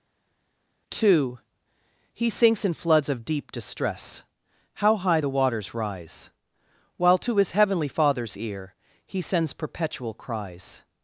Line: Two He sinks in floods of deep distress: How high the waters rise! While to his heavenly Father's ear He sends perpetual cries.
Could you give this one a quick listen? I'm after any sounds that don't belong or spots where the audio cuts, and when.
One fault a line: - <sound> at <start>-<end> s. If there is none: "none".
none